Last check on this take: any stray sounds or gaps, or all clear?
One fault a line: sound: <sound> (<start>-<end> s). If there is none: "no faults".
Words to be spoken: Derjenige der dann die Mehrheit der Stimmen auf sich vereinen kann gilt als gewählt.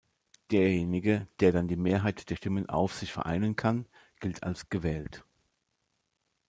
no faults